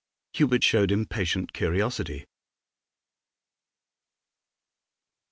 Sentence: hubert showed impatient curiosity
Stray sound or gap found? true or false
false